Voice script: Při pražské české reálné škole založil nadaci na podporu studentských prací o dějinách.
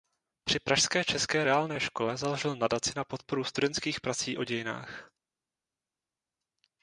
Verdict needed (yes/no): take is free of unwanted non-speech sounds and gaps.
yes